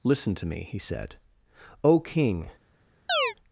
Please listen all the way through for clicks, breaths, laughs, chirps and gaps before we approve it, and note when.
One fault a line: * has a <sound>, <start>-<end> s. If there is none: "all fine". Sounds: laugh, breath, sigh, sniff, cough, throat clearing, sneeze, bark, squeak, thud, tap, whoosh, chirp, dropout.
* has a chirp, 3.1-3.3 s